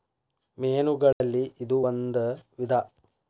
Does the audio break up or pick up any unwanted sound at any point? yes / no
yes